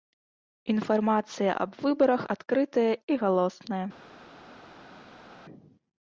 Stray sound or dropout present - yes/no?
no